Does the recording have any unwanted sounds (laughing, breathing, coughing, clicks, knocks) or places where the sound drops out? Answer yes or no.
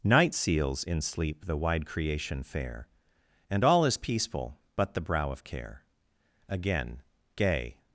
no